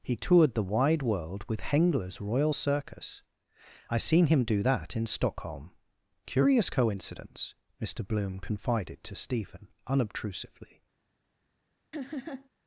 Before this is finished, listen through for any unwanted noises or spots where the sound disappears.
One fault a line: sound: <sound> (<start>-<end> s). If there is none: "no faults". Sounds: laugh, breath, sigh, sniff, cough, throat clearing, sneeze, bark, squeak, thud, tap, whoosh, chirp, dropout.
sound: laugh (11.9-12.5 s)